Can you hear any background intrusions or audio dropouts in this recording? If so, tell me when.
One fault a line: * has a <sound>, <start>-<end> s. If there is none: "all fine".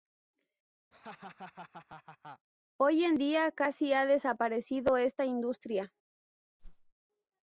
* has a laugh, 0.9-2.5 s
* has a whoosh, 6.6-6.9 s